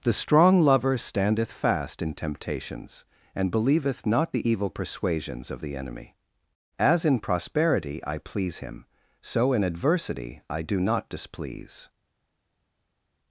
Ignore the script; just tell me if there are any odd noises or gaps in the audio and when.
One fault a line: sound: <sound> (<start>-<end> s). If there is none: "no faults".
no faults